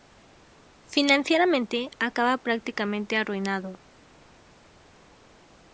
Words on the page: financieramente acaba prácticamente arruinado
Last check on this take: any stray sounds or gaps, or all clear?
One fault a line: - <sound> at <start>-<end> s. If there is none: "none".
none